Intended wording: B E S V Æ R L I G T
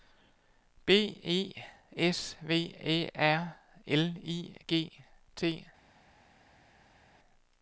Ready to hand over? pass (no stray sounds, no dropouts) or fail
pass